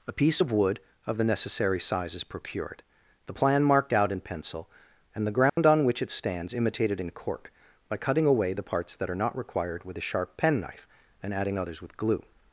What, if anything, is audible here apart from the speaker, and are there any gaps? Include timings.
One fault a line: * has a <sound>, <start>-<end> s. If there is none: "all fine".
* has a dropout, 5.5-5.6 s